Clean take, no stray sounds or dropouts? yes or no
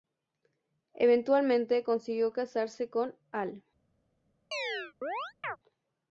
no